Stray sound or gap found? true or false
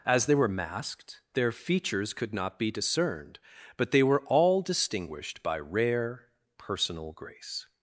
false